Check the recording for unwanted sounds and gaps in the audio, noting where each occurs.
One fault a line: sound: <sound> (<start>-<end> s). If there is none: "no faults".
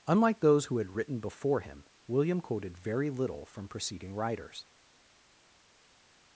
no faults